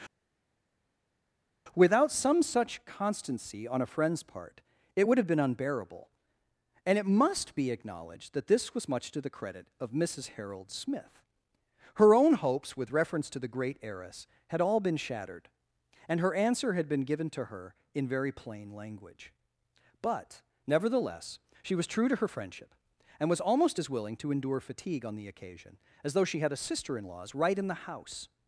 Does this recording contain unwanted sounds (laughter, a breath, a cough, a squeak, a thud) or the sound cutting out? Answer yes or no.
no